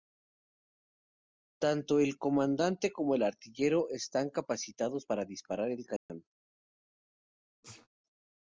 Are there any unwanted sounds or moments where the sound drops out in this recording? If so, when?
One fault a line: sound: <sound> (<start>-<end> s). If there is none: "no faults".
sound: dropout (6.0-6.1 s)
sound: sneeze (7.6-7.9 s)